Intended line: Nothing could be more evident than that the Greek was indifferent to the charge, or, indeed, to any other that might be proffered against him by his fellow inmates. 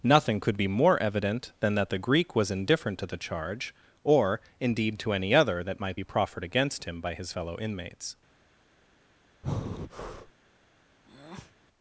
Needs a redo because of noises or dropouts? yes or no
yes